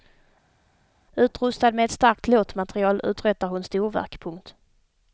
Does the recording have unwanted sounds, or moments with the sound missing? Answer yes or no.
no